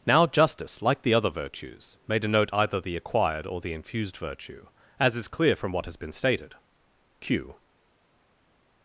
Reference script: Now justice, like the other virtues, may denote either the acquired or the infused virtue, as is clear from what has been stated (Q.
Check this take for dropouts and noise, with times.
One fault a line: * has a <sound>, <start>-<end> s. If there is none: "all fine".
all fine